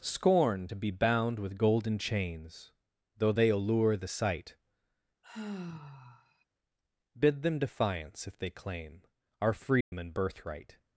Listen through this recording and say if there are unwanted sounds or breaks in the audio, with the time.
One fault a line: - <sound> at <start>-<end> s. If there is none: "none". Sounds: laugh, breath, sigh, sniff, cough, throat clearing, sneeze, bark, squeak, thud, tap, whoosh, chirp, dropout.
- sigh at 5.2-6.4 s
- dropout at 9.8-9.9 s